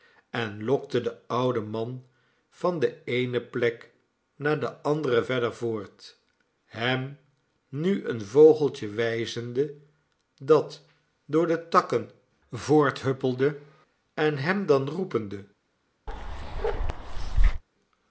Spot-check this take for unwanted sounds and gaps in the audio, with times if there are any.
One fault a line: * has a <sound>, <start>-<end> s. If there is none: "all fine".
* has a bark, 16.1-17.6 s